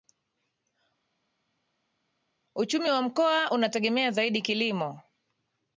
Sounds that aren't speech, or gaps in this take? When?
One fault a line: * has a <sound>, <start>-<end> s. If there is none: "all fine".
all fine